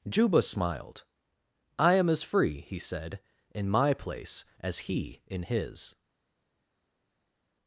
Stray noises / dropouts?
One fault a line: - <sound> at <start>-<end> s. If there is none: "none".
none